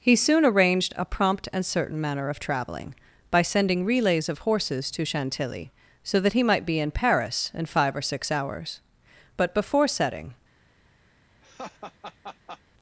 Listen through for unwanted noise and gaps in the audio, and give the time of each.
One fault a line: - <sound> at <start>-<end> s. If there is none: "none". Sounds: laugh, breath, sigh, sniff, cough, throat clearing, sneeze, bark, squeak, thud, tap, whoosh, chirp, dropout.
- laugh at 11.4-12.6 s